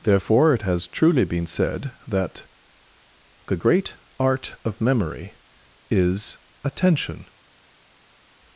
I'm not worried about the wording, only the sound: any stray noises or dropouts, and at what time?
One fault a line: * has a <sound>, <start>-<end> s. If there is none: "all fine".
all fine